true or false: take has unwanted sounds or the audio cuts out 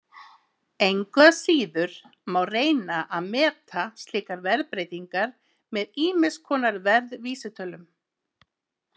false